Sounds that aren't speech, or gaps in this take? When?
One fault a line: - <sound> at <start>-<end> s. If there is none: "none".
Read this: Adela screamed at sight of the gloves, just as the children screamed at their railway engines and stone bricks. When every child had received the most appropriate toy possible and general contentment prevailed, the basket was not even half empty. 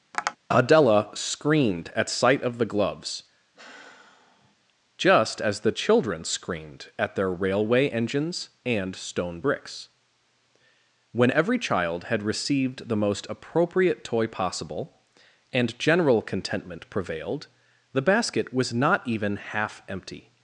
- tap at 0.1-0.4 s
- sigh at 3.6-4.6 s